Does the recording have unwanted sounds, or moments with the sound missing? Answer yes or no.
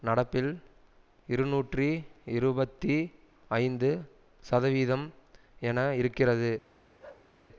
yes